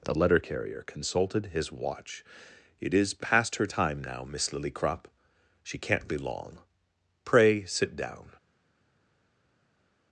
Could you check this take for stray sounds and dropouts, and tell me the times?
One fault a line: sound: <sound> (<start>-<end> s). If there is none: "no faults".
no faults